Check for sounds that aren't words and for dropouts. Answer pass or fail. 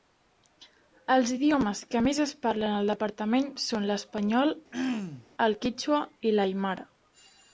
fail